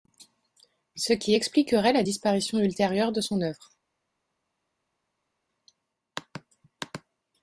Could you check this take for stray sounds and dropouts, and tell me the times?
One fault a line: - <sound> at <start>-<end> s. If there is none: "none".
none